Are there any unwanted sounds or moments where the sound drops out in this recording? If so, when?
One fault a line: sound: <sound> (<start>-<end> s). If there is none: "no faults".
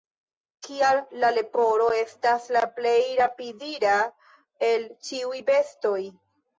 no faults